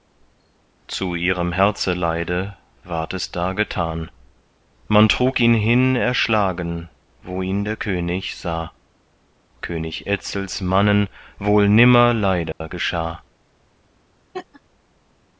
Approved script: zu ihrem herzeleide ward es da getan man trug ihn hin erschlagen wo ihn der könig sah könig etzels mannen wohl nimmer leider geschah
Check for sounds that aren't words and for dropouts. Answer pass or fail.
fail